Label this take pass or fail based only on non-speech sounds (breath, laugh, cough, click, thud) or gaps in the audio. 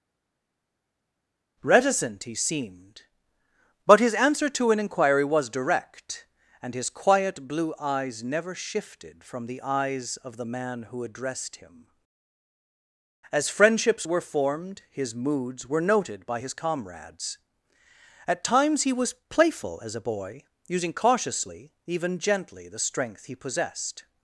pass